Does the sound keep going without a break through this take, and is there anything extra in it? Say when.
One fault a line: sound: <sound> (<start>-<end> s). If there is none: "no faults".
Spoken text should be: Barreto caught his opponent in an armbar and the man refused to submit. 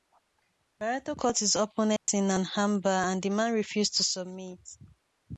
sound: dropout (2.0-2.1 s)